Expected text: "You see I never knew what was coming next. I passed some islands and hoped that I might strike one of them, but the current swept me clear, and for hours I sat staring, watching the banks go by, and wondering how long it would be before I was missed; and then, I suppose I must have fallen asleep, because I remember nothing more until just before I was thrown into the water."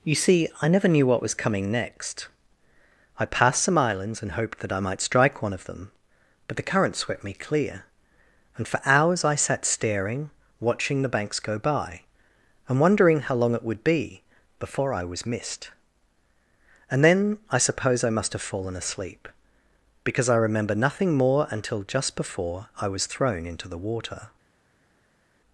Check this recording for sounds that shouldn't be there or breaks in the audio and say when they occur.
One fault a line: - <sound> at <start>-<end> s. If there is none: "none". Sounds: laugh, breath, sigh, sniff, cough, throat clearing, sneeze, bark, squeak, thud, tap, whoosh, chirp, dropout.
none